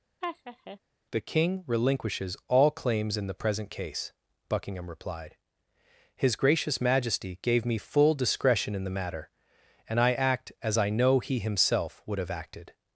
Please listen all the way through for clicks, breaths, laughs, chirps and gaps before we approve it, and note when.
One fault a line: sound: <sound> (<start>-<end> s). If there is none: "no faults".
sound: laugh (0.2-0.8 s)